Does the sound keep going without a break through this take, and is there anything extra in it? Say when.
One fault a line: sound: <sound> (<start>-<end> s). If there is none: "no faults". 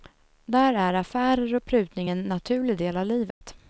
sound: dropout (3.3-3.4 s)